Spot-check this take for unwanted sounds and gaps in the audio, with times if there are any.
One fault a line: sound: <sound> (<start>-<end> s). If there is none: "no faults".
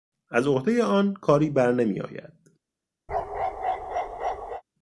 sound: bark (3.1-4.6 s)